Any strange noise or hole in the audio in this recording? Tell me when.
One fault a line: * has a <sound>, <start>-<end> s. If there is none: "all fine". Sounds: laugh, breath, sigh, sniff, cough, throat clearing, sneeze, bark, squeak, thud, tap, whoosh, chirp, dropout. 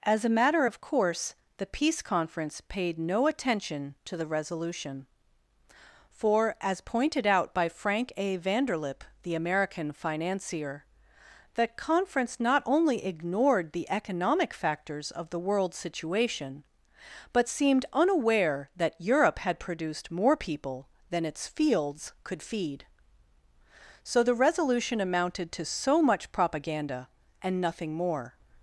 all fine